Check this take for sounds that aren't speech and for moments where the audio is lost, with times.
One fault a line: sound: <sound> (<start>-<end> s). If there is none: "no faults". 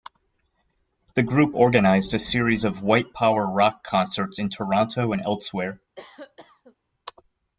sound: cough (6.0-6.8 s)